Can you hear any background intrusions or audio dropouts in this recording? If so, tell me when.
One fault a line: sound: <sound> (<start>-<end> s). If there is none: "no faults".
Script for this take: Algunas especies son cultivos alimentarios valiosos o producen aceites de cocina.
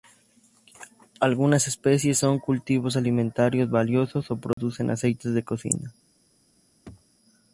sound: dropout (4.5-4.6 s)
sound: throat clearing (6.8-7.0 s)